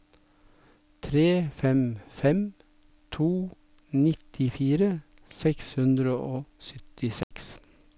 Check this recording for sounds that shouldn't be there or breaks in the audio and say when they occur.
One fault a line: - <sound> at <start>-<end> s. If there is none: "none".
- dropout at 7.2-7.3 s